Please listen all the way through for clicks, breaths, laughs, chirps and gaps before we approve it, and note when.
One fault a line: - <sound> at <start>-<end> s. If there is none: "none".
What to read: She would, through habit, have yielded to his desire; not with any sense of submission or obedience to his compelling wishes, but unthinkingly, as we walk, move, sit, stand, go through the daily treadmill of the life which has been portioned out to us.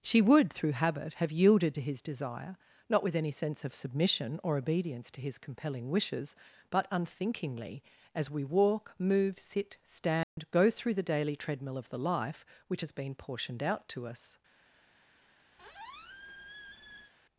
- dropout at 10.2-10.4 s
- squeak at 15.6-17.1 s